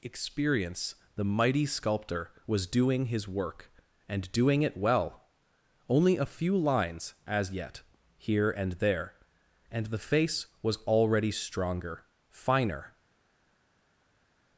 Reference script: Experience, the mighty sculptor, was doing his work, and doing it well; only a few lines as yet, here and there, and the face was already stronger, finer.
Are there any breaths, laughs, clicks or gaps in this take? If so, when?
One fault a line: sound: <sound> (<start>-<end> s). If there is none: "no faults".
no faults